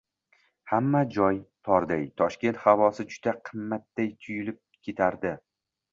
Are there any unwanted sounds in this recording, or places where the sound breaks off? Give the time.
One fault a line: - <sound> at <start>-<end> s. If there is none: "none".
none